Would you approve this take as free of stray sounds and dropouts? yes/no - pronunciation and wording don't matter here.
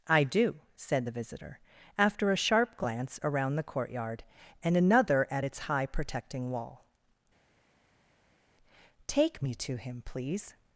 yes